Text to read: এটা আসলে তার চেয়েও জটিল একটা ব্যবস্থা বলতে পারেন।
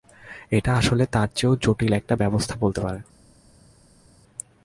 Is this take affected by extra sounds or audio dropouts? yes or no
no